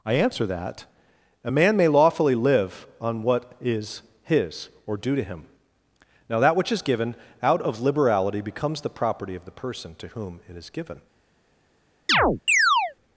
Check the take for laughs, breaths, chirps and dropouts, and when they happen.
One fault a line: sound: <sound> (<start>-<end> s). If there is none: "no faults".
sound: chirp (12.1-12.9 s)